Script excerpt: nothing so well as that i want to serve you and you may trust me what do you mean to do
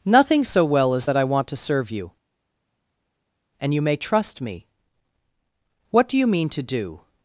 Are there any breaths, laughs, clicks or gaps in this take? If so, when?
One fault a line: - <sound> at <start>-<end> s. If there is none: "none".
none